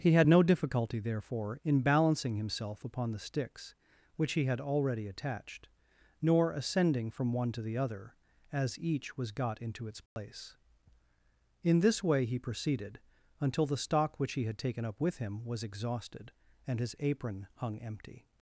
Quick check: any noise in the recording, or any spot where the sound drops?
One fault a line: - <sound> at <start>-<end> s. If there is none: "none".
- dropout at 10.1-10.2 s